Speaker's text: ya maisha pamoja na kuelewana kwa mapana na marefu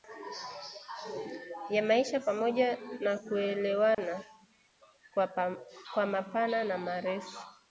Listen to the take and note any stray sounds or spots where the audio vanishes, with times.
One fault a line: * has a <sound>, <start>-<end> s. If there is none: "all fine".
* has a dropout, 3.9-4.0 s